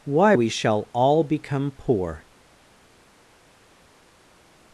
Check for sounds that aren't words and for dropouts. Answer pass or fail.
pass